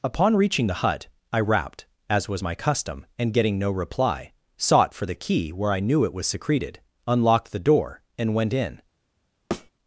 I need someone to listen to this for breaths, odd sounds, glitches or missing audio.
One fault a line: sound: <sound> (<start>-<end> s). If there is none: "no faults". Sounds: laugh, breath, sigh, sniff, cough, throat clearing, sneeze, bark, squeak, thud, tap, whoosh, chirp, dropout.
sound: thud (9.5-9.7 s)